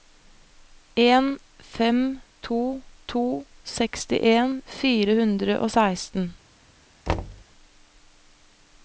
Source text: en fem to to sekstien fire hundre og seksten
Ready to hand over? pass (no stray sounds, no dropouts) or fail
fail